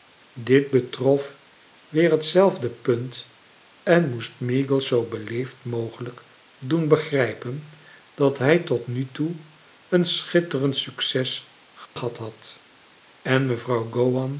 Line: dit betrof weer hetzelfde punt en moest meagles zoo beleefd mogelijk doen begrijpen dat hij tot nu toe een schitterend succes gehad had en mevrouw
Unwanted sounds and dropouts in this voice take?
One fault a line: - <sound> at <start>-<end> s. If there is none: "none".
- dropout at 11.9-12.0 s